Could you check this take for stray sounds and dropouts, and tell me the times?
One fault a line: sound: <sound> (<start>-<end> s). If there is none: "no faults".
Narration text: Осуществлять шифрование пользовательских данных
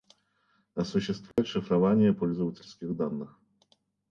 sound: dropout (1.3-1.4 s)